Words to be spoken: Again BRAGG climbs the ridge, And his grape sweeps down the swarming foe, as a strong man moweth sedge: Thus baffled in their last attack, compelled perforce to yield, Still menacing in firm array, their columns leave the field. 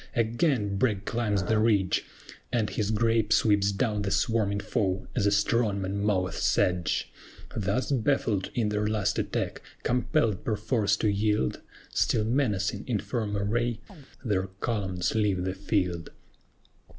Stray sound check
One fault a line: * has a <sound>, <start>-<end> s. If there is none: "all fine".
* has a chirp, 13.9-14.1 s